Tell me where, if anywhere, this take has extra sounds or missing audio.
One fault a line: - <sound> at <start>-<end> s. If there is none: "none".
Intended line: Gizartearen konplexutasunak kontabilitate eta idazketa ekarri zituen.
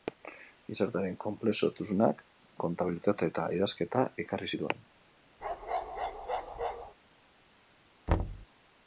- bark at 5.4-6.9 s
- thud at 8.1-8.5 s